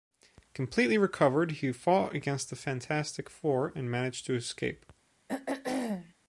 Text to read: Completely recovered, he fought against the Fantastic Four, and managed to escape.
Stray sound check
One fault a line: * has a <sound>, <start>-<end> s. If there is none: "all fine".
* has a throat clearing, 5.3-6.1 s